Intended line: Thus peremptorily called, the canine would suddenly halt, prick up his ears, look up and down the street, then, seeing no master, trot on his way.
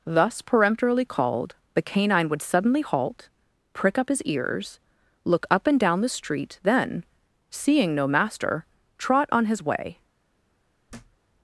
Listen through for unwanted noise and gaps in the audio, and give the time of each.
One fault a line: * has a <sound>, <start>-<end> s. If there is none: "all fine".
* has a thud, 10.9-11.2 s